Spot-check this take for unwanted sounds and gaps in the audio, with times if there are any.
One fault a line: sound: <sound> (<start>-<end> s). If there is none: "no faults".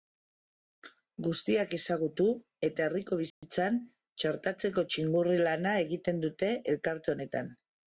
sound: dropout (3.3-3.4 s)